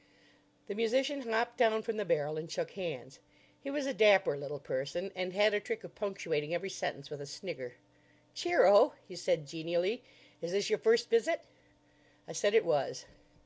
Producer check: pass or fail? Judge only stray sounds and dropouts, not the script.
pass